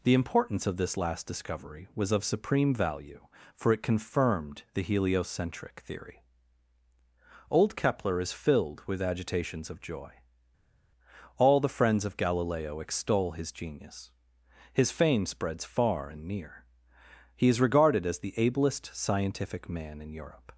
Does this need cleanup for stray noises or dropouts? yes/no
no